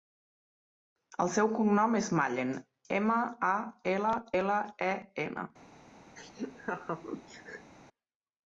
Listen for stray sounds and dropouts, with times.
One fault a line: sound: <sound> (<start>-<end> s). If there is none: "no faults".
sound: laugh (6.2-7.7 s)